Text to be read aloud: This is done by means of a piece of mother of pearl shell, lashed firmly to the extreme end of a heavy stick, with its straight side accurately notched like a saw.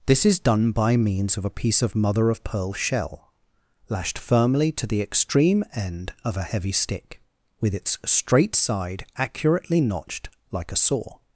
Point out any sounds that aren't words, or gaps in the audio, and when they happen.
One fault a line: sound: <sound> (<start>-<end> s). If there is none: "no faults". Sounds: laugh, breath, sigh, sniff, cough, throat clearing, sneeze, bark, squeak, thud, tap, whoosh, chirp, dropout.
no faults